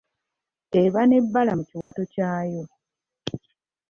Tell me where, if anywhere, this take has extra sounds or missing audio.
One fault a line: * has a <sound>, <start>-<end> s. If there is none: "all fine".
* has a dropout, 1.8-1.9 s